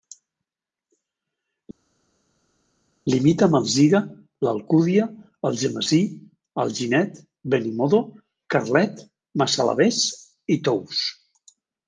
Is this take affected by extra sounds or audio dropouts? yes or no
no